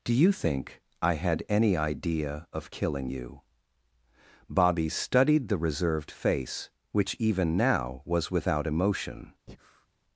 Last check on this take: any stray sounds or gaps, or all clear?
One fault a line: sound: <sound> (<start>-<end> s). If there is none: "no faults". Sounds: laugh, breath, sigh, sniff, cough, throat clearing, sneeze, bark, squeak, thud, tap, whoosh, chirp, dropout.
sound: breath (9.5-9.9 s)